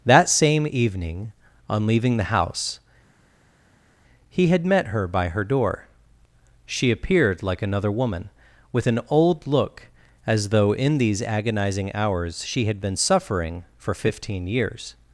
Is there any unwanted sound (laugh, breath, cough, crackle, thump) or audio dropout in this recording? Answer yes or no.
no